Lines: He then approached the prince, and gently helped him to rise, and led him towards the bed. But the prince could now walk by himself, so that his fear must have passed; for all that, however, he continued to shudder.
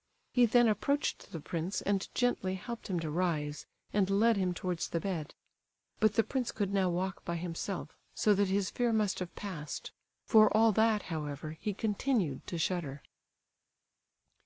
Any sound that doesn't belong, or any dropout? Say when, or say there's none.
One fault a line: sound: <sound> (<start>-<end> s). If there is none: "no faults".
no faults